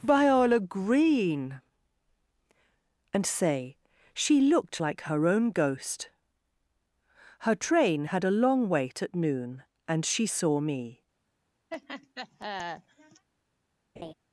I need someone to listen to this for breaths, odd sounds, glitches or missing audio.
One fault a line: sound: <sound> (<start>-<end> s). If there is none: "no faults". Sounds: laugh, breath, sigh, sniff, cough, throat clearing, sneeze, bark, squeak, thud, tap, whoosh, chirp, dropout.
sound: laugh (11.7-13.3 s)
sound: laugh (14.0-14.1 s)